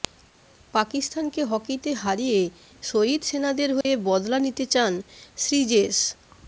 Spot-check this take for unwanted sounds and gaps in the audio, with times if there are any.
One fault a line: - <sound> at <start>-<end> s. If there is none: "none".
- dropout at 3.8-3.9 s